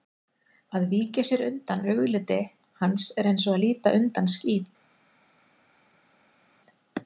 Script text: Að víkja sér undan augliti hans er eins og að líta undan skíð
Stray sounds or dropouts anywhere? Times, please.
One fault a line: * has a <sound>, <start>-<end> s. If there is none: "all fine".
all fine